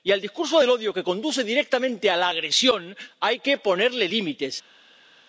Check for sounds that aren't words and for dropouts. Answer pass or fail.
pass